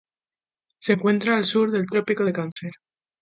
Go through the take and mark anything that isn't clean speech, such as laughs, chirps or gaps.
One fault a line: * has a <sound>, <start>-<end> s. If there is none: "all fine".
* has a dropout, 2.5-2.6 s